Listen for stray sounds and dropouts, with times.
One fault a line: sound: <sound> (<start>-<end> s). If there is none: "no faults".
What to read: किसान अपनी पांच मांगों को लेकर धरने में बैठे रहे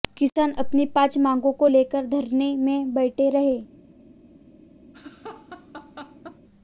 sound: laugh (4.9-6.4 s)